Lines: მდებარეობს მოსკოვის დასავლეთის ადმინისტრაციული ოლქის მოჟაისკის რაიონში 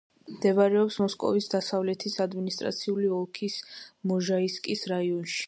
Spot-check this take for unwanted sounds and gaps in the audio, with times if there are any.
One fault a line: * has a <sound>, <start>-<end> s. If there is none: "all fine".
all fine